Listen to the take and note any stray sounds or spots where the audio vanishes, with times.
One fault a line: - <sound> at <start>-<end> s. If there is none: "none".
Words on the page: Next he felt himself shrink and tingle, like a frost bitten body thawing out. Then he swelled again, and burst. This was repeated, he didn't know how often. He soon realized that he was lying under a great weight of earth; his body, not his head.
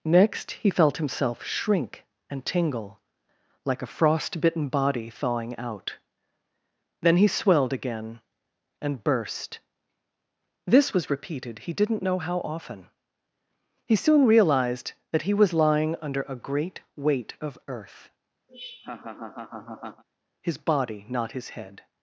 - laugh at 18.5-20.0 s